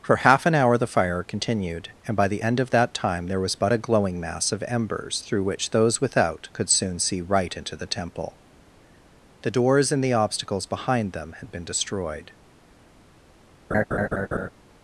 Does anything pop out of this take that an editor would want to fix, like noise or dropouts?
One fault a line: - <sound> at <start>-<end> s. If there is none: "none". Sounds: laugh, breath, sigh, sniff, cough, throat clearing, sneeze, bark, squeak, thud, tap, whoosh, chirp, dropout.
- laugh at 13.7-14.5 s